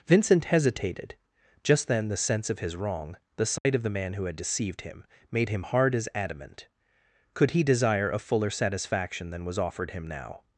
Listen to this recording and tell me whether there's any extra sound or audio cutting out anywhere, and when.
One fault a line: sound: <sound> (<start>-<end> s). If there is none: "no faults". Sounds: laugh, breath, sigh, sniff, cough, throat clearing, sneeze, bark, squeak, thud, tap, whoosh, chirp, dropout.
sound: dropout (3.6-3.7 s)